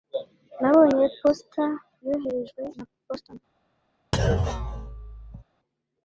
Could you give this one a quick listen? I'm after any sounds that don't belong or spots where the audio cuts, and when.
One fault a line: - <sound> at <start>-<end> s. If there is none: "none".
- thud at 4.1-5.4 s